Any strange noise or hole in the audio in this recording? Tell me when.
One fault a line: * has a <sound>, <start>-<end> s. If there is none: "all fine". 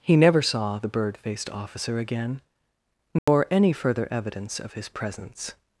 * has a dropout, 3.2-3.3 s